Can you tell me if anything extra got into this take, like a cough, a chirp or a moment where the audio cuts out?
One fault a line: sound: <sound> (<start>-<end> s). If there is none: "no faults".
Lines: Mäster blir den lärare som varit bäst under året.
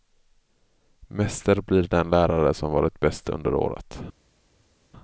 no faults